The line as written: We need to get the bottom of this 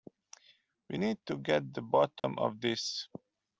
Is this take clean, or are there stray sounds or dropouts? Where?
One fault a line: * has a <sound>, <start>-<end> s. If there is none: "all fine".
* has a dropout, 2.2-2.2 s